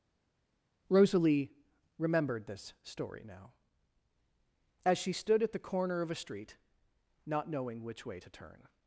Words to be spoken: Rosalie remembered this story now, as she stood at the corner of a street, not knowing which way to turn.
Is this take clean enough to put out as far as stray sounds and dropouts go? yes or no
yes